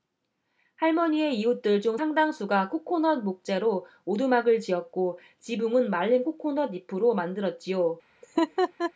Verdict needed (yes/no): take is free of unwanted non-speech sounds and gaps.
no